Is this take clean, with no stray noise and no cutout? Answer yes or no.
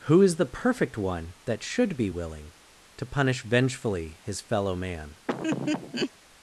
no